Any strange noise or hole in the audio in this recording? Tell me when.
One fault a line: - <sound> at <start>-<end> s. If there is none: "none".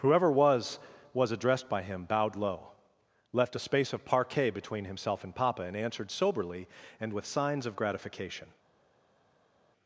none